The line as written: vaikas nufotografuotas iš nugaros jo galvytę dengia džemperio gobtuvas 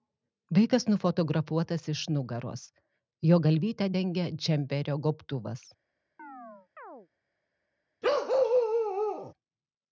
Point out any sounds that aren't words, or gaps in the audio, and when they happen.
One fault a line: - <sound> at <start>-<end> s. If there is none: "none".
- chirp at 6.2-7.1 s
- bark at 8.0-9.3 s